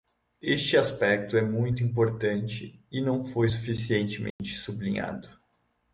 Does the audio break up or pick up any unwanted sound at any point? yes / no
yes